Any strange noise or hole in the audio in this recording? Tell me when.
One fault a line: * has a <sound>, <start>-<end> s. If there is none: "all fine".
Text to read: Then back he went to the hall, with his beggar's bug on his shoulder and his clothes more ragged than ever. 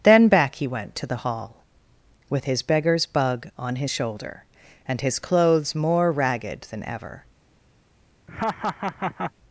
* has a laugh, 8.3-9.3 s